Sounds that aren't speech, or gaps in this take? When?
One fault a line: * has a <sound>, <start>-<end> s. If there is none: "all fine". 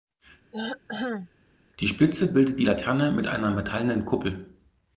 * has a throat clearing, 0.5-1.3 s